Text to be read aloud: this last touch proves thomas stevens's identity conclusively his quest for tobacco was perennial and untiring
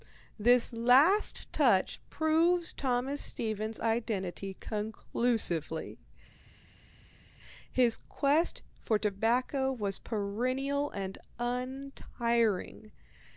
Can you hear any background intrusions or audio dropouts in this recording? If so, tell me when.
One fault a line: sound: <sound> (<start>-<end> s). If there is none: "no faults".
no faults